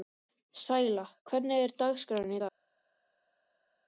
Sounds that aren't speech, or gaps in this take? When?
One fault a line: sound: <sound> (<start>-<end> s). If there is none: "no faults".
no faults